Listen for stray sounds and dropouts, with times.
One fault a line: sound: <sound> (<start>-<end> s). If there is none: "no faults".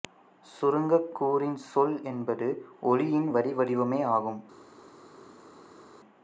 no faults